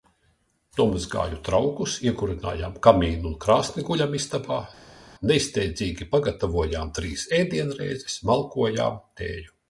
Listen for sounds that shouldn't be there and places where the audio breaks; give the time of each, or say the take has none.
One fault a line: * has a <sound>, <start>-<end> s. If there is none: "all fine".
all fine